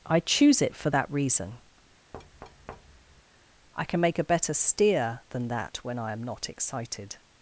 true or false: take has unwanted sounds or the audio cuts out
true